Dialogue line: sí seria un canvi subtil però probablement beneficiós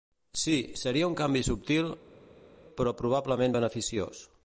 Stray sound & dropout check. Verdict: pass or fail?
pass